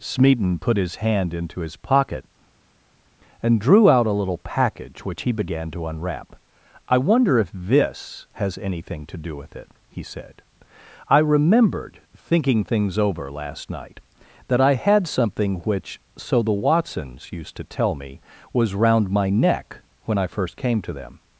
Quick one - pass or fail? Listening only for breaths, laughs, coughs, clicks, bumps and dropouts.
pass